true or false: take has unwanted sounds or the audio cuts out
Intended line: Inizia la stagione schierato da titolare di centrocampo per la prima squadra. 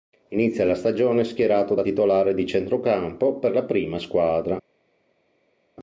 false